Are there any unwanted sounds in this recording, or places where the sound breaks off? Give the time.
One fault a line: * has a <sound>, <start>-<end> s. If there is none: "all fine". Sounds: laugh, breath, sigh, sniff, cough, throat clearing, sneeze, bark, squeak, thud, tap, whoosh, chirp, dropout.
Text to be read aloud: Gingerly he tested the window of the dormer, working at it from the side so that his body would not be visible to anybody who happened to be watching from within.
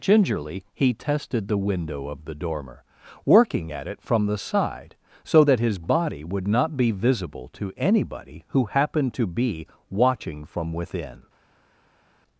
all fine